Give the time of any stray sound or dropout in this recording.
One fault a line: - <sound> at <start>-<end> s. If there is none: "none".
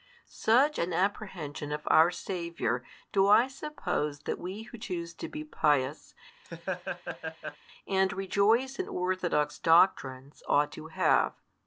- laugh at 6.4-7.6 s